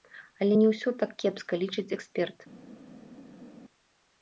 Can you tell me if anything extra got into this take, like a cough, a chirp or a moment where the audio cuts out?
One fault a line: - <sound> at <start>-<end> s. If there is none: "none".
none